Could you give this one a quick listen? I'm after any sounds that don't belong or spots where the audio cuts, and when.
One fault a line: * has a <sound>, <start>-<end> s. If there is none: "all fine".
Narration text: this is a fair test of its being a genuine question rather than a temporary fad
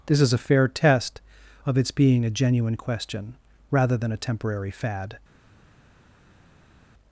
all fine